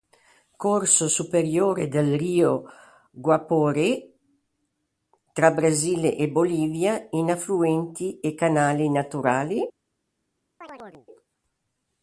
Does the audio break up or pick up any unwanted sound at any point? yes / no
yes